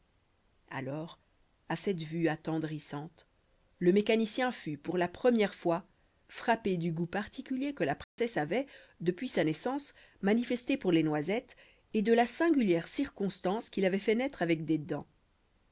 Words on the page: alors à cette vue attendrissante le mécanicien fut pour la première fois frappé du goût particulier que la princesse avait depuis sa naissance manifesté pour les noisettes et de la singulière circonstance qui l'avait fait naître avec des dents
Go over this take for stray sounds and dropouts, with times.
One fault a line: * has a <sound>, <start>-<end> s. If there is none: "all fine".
* has a dropout, 8.0-8.2 s